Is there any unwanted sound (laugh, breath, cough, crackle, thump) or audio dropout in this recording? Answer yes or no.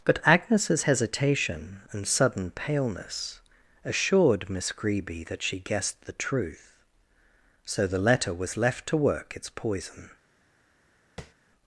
yes